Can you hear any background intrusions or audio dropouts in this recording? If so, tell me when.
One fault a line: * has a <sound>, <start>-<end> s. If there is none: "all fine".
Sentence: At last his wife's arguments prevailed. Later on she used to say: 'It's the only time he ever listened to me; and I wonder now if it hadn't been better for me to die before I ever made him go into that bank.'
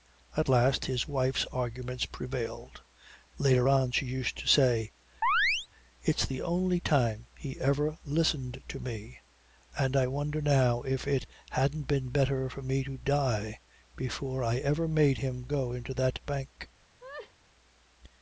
* has a chirp, 5.2-5.7 s
* has a laugh, 17.0-17.3 s